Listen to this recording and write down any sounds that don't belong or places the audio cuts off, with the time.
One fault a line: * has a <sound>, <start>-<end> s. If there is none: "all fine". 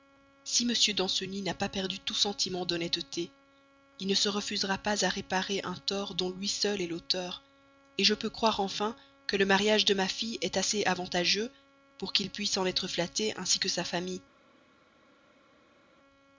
all fine